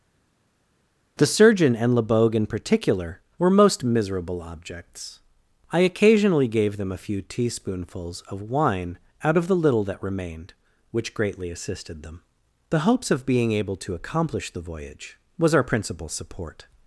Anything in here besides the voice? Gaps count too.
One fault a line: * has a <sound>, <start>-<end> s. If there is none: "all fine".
all fine